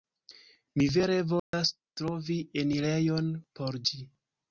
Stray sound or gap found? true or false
true